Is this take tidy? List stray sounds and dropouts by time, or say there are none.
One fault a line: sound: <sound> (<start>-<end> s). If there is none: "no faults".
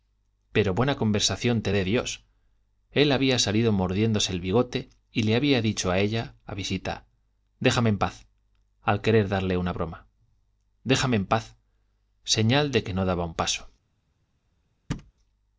sound: thud (14.9-15.1 s)